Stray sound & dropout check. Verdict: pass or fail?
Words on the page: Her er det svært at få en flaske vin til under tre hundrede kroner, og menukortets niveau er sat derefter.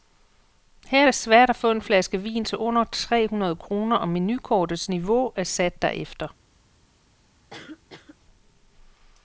fail